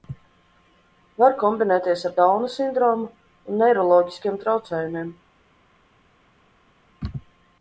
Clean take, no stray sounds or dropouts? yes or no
yes